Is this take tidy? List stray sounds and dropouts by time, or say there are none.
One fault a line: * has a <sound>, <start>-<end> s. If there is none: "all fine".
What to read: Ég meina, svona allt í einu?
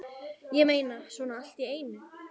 all fine